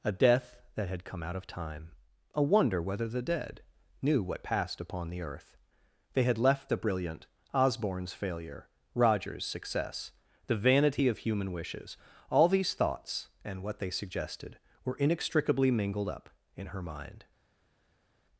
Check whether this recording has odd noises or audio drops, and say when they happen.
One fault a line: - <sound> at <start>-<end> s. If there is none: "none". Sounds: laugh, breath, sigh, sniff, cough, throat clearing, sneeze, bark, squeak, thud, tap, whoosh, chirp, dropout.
none